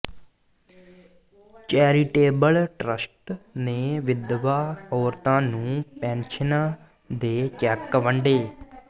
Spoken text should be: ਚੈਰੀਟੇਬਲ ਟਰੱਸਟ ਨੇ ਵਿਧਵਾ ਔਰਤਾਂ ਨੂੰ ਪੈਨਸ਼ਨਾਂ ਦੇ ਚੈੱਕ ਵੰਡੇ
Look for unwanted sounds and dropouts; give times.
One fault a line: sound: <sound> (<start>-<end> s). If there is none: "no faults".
no faults